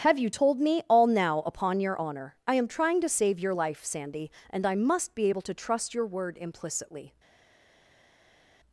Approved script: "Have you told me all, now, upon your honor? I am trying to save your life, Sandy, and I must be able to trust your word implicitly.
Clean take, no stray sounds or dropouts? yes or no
yes